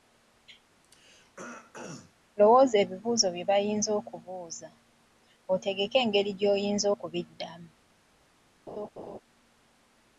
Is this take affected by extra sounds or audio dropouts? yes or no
yes